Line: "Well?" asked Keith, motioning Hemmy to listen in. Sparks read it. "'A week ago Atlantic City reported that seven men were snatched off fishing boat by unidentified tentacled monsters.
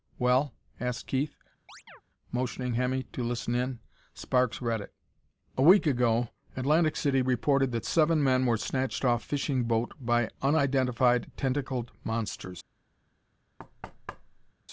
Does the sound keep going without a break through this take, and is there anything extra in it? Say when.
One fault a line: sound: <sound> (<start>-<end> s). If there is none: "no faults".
sound: chirp (1.7-2.0 s)
sound: thud (13.6-14.5 s)